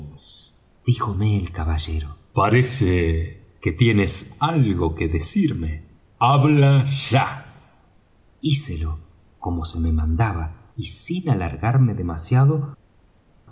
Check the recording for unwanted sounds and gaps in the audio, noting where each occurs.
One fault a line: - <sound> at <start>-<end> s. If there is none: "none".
none